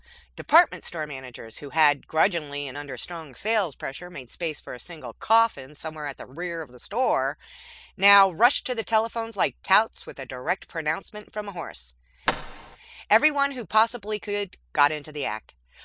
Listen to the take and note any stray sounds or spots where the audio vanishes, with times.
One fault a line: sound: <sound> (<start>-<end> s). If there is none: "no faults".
sound: thud (12.3-12.8 s)